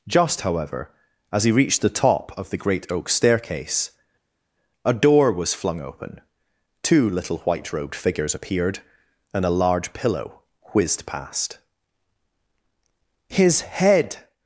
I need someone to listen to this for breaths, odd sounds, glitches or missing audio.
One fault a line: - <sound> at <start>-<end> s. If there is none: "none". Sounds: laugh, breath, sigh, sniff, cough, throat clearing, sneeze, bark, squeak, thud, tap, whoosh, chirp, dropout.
none